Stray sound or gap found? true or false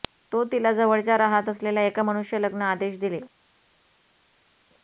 false